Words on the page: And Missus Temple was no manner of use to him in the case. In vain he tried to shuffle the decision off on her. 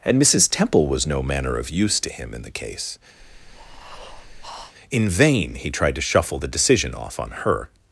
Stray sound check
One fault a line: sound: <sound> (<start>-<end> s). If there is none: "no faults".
sound: breath (3.2-4.7 s)